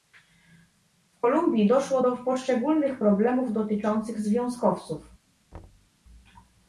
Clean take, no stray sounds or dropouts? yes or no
no